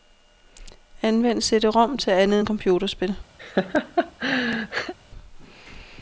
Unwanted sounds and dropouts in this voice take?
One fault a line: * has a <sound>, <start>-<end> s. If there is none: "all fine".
* has a laugh, 3.4-4.9 s